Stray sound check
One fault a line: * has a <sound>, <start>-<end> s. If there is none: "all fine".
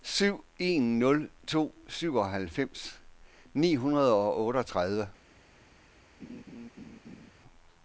* has a laugh, 6.2-7.3 s